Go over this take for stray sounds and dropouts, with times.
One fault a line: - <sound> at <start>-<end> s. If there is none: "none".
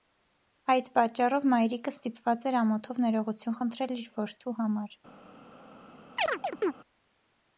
- chirp at 6.2-6.7 s